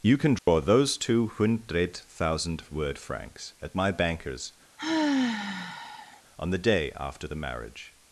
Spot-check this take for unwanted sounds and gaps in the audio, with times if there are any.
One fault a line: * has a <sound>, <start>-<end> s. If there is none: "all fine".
* has a dropout, 0.4-0.5 s
* has a sigh, 4.8-6.2 s